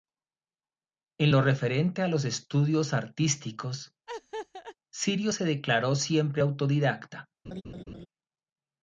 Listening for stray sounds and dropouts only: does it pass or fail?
fail